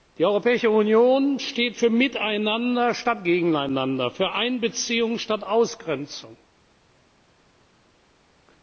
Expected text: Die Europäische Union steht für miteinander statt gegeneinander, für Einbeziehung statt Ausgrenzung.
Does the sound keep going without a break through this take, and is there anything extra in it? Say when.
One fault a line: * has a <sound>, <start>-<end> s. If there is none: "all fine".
all fine